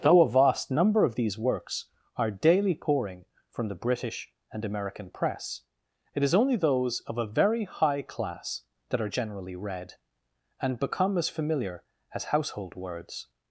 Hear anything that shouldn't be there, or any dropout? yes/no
no